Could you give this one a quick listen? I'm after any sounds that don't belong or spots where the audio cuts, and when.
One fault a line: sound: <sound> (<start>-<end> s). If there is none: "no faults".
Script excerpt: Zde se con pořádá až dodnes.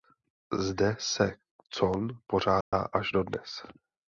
sound: dropout (2.6-2.7 s)